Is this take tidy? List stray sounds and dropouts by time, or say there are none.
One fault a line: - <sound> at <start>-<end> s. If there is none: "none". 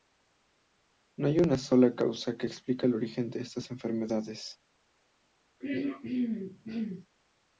- throat clearing at 5.6-7.1 s